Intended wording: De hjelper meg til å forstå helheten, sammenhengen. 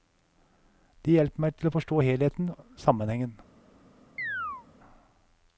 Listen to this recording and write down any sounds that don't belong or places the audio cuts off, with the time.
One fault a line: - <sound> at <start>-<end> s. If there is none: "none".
- chirp at 4.2-4.7 s